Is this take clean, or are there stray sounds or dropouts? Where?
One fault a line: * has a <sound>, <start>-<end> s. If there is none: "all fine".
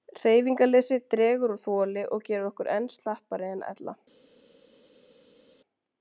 all fine